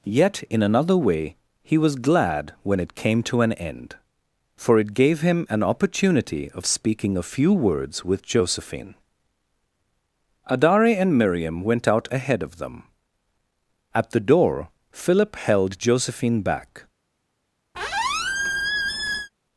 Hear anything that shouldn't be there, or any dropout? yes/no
yes